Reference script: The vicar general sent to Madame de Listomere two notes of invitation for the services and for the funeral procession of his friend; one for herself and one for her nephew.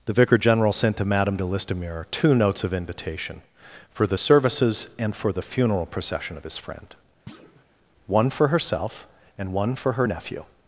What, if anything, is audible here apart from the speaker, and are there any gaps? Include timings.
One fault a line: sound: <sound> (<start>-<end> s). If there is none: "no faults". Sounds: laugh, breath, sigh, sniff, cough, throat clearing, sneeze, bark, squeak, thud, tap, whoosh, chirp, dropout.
sound: thud (7.3-7.6 s)